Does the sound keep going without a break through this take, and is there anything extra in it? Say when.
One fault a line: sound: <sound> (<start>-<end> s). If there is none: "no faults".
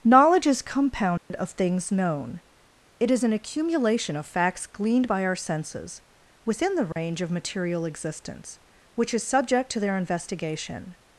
sound: dropout (1.2-1.3 s)
sound: dropout (6.9-7.0 s)